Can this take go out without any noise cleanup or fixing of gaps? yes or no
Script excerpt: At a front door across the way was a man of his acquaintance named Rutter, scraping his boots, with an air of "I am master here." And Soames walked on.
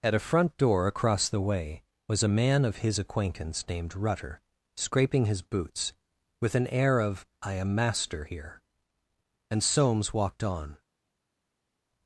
yes